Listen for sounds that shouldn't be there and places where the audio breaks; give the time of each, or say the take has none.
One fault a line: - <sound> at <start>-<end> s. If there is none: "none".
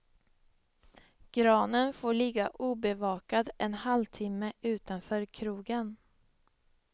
none